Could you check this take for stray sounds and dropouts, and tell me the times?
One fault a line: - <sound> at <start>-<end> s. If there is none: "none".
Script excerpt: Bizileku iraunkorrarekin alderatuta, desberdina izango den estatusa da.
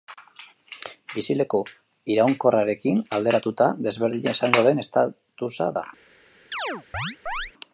- chirp at 6.5-7.5 s